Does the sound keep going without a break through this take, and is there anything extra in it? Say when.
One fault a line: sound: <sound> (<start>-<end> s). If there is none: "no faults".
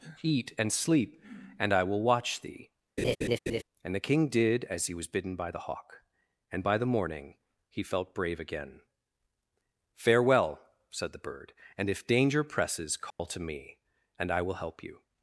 sound: laugh (3.0-3.6 s)
sound: dropout (13.1-13.2 s)